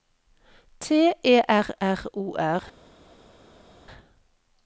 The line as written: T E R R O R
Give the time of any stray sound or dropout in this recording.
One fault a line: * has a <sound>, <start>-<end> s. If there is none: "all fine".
all fine